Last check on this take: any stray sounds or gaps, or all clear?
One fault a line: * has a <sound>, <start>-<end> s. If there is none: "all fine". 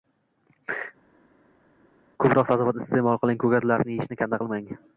all fine